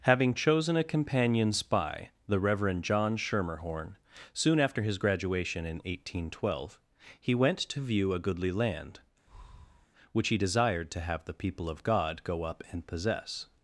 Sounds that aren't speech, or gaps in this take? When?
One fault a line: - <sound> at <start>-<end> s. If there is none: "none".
- breath at 9.3-9.9 s